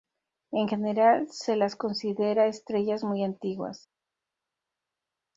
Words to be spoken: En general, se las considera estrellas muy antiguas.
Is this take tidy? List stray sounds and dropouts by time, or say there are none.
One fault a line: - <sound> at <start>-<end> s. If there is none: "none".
none